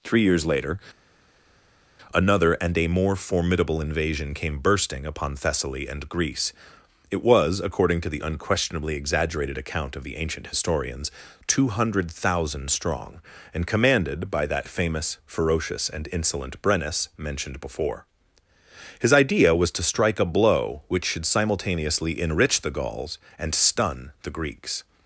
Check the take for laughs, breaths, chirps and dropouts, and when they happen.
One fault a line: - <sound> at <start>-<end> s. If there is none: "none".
none